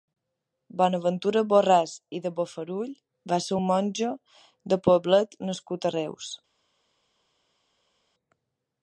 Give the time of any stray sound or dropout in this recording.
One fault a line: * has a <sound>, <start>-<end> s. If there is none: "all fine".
all fine